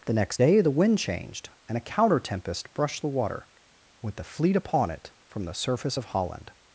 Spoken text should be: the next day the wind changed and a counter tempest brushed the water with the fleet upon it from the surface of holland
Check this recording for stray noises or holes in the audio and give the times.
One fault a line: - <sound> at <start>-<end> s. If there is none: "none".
none